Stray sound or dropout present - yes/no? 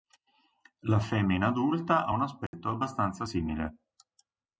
yes